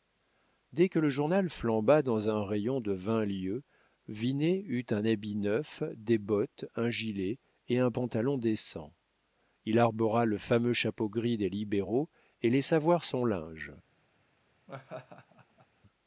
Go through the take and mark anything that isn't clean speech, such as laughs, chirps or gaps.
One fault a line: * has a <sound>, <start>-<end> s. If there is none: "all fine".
* has a laugh, 14.7-15.7 s